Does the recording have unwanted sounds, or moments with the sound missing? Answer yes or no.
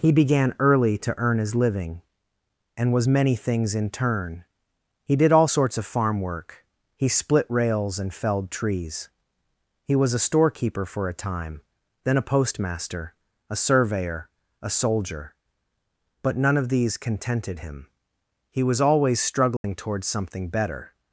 yes